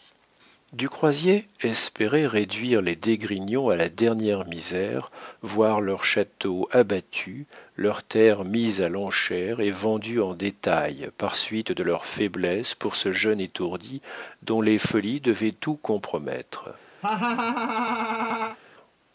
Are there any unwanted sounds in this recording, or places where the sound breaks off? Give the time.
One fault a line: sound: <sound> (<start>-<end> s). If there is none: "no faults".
sound: laugh (17.0-18.6 s)